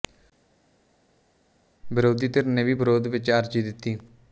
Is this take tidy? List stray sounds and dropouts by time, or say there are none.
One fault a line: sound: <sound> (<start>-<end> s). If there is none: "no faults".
no faults